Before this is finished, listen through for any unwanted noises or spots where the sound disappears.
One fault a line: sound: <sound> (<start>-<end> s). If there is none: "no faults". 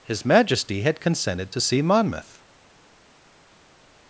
no faults